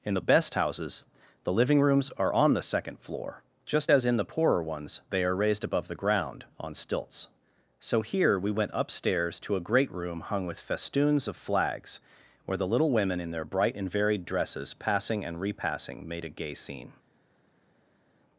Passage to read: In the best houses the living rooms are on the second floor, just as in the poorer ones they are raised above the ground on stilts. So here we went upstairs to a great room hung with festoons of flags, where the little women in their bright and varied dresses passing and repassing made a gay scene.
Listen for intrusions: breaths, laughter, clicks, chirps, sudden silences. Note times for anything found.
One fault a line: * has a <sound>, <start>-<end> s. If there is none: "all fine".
all fine